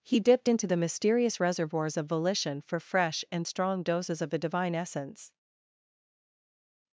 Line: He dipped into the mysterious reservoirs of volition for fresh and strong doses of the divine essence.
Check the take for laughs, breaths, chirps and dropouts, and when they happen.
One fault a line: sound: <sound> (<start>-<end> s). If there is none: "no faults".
no faults